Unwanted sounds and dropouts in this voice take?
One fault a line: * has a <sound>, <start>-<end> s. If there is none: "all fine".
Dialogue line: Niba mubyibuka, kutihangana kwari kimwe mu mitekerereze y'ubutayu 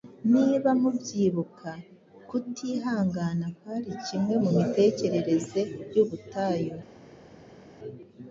all fine